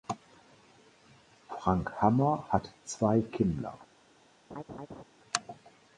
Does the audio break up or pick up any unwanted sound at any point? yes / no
yes